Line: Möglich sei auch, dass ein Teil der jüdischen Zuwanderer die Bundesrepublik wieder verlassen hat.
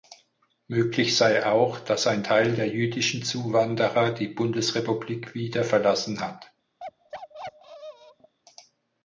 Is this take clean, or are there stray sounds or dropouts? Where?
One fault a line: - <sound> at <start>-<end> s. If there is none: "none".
- bark at 6.8-8.3 s